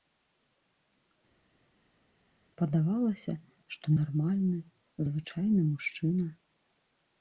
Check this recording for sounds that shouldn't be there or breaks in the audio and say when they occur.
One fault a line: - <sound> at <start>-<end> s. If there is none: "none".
none